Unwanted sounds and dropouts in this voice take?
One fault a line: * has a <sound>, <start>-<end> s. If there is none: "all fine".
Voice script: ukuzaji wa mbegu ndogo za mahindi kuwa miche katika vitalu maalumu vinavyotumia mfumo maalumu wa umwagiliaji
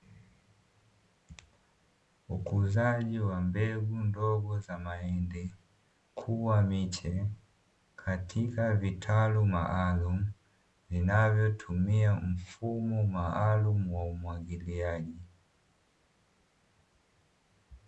all fine